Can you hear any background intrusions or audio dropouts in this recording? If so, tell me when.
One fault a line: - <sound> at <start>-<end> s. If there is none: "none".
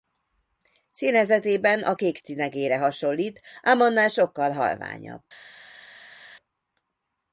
none